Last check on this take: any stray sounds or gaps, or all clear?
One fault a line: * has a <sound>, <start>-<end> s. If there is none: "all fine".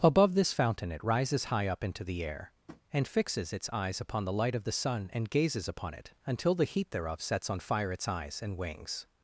* has a tap, 2.7-2.8 s